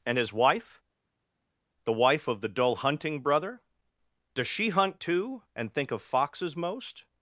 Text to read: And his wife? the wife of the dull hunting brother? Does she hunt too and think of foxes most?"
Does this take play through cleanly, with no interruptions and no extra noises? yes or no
yes